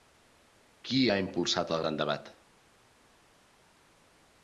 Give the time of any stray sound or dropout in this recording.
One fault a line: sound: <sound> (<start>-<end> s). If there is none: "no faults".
no faults